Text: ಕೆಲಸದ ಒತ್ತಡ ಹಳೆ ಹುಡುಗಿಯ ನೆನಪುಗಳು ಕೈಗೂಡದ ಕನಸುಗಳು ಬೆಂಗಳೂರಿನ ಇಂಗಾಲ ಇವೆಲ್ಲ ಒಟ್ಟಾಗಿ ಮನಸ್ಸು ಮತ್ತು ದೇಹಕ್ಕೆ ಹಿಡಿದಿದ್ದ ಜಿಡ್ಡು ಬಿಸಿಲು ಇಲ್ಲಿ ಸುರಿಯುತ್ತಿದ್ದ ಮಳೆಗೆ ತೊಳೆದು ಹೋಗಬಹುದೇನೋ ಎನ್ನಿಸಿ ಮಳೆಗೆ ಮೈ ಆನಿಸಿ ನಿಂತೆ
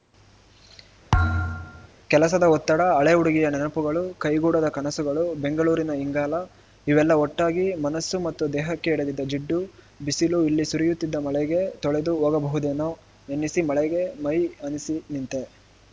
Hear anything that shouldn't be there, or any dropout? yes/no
yes